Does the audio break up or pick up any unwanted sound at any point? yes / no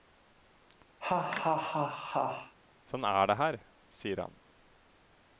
yes